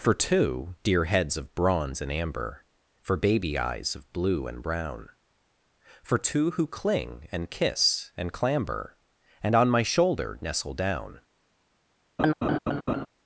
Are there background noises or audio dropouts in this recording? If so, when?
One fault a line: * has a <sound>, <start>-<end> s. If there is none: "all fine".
* has a laugh, 12.2-13.1 s